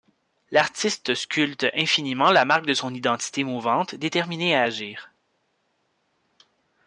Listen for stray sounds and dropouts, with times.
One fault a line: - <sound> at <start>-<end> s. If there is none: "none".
none